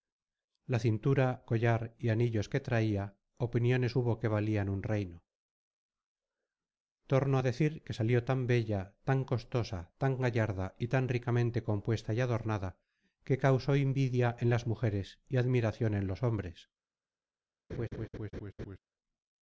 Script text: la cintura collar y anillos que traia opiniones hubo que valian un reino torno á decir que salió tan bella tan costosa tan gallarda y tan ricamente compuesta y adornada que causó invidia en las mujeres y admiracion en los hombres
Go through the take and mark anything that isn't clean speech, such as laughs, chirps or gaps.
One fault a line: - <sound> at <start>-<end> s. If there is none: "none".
- laugh at 17.7-18.8 s